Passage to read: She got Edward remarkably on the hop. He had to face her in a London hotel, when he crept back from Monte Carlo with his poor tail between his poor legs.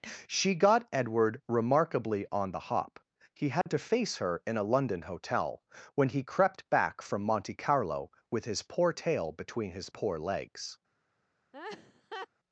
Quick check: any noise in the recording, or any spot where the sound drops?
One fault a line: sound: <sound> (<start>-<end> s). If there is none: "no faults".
sound: dropout (3.6-3.7 s)
sound: laugh (11.5-12.3 s)